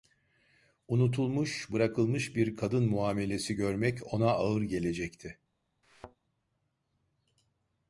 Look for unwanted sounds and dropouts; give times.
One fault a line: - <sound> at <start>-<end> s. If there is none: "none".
- thud at 5.8-6.2 s